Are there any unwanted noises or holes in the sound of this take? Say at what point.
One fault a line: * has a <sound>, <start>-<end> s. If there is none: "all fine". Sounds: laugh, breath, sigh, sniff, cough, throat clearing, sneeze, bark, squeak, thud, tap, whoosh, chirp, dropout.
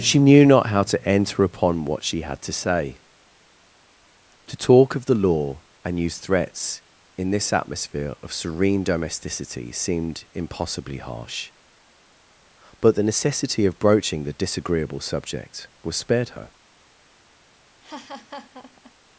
* has a laugh, 17.8-18.9 s